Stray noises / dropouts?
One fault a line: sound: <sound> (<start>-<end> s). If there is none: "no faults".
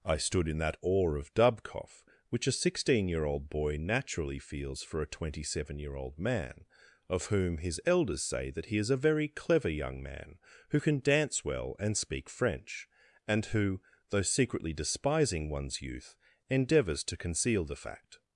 no faults